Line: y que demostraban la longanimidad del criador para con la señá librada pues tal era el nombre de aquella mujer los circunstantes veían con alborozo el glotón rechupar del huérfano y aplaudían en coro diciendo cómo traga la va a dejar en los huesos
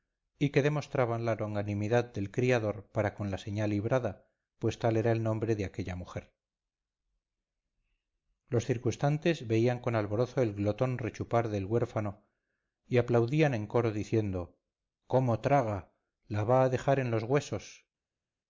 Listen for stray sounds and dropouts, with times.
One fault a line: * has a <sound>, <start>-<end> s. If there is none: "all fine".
all fine